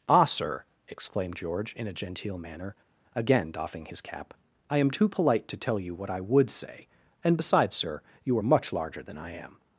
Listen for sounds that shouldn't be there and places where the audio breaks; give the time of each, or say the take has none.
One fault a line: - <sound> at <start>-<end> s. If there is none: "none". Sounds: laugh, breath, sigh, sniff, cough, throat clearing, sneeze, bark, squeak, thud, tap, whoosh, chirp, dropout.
none